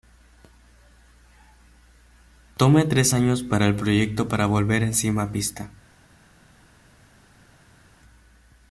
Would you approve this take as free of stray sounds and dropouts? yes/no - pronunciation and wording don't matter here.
yes